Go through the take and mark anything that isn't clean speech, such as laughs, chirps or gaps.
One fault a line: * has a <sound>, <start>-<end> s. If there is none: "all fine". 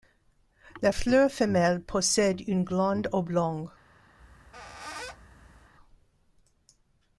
* has a squeak, 4.2-5.7 s